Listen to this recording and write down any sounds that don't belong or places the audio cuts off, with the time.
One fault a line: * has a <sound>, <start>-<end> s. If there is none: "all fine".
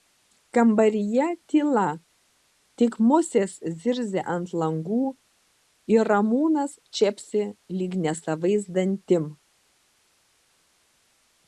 all fine